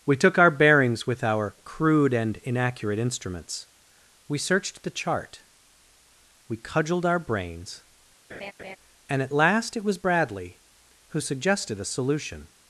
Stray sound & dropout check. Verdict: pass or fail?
fail